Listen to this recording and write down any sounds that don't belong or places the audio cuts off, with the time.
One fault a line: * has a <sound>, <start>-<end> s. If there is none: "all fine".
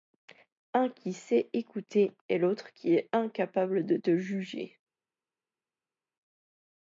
all fine